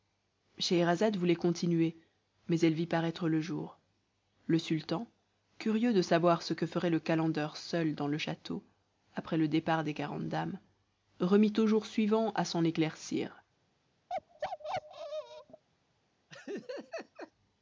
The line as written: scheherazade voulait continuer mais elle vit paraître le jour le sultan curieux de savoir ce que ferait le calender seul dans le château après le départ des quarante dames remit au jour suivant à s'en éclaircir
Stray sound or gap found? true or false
true